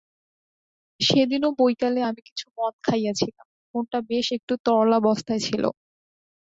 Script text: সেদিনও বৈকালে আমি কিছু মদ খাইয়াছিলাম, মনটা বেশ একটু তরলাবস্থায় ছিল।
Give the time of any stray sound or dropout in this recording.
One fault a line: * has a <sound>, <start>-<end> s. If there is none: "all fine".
all fine